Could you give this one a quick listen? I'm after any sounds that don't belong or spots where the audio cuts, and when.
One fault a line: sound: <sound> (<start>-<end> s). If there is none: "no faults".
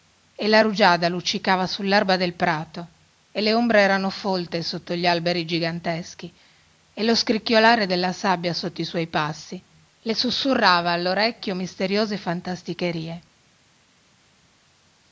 no faults